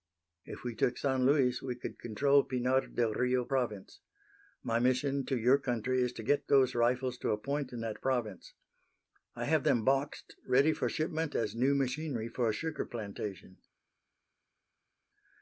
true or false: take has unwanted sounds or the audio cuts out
false